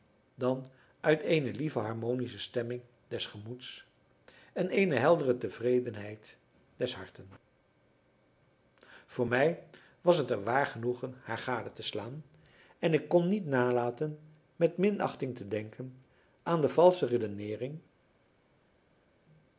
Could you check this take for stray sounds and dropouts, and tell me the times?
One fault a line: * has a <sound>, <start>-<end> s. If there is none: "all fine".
all fine